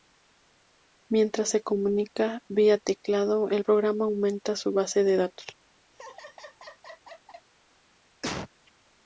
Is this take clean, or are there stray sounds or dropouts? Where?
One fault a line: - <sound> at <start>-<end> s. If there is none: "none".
- laugh at 5.9-7.5 s
- cough at 8.2-8.5 s